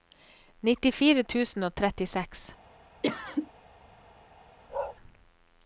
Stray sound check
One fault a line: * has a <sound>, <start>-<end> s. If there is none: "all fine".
* has a cough, 3.0-3.5 s
* has a bark, 4.7-5.0 s